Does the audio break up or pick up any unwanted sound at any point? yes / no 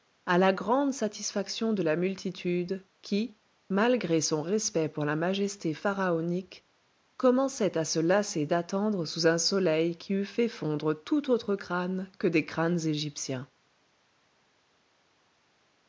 no